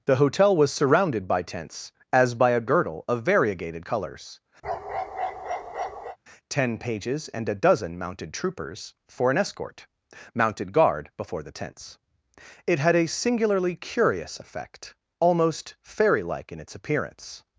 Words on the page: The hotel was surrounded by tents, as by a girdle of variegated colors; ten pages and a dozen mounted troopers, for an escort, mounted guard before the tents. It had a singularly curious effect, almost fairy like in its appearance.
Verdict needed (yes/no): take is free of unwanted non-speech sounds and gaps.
no